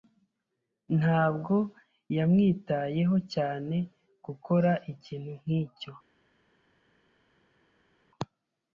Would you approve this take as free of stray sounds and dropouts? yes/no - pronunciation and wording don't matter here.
yes